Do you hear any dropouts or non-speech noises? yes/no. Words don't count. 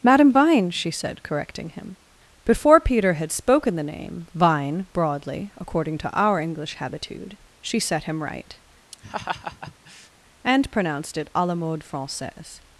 yes